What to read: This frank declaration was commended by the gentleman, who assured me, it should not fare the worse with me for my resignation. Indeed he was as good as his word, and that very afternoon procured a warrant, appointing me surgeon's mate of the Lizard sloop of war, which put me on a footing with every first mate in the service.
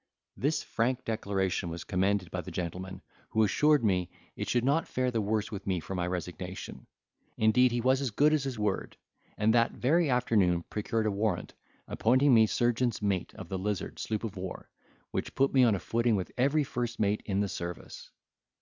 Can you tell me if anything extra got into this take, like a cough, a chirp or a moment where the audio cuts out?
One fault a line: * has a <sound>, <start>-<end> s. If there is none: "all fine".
all fine